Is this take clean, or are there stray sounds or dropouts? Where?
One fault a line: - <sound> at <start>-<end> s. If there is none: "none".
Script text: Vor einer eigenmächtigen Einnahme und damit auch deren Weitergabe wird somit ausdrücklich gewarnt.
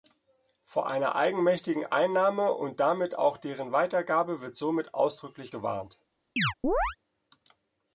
- chirp at 6.4-7.0 s